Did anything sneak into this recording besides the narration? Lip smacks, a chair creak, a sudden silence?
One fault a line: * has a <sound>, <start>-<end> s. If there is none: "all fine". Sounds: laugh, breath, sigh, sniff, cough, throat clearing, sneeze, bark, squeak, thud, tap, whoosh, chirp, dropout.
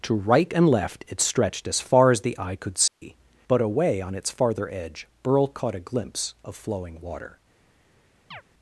* has a dropout, 2.9-3.0 s
* has a chirp, 8.3-8.4 s